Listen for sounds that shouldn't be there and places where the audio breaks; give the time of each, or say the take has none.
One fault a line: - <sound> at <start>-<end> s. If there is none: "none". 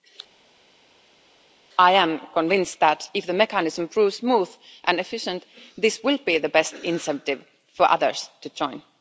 none